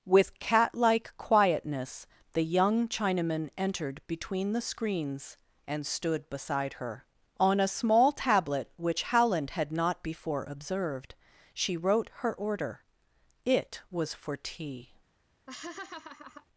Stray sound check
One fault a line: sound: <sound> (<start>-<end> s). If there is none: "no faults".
sound: laugh (15.5-16.5 s)